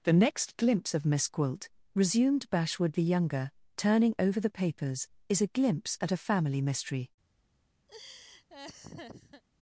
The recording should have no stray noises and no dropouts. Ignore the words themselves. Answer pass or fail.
fail